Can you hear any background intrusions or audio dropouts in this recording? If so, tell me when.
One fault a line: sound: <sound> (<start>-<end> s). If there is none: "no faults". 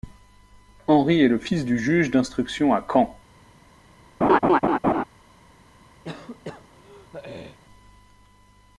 sound: laugh (4.2-5.0 s)
sound: throat clearing (6.0-7.6 s)